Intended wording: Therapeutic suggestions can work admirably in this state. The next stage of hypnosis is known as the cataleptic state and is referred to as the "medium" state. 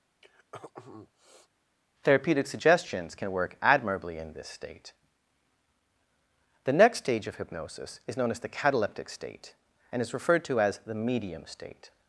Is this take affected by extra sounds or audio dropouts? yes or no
yes